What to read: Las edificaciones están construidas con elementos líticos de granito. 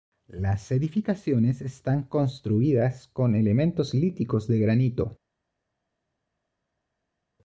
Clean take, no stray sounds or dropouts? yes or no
yes